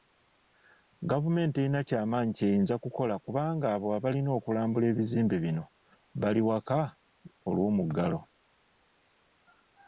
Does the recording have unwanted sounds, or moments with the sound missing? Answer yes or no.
no